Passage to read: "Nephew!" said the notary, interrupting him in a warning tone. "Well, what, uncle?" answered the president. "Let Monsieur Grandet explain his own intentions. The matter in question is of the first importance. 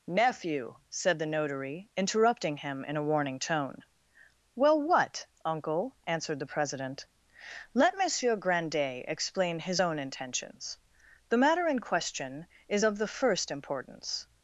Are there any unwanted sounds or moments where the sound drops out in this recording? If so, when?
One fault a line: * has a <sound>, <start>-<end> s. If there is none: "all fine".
all fine